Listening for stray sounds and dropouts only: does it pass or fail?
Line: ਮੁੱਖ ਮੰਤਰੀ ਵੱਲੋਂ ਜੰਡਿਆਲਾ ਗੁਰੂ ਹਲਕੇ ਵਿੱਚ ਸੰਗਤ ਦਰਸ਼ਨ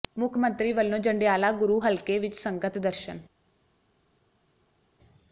pass